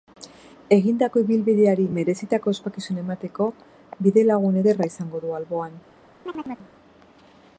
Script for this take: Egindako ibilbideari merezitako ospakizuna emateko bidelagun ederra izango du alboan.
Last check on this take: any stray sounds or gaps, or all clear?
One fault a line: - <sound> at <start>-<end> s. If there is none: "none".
- chirp at 6.3-6.7 s